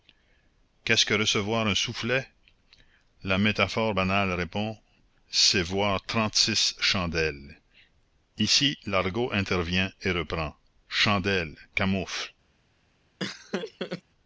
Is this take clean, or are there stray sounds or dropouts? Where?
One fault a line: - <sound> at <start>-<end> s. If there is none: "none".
- laugh at 13.2-14.0 s